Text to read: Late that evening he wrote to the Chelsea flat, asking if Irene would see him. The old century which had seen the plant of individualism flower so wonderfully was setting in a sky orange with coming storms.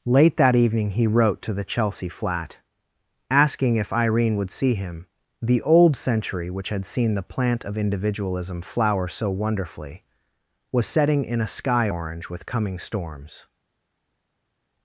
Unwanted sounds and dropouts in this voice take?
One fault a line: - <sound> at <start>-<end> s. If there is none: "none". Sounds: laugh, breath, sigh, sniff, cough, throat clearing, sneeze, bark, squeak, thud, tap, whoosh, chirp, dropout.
none